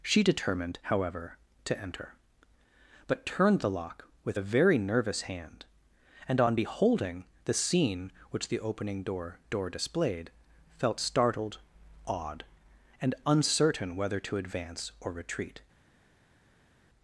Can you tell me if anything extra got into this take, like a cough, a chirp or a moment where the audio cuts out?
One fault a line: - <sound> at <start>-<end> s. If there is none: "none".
none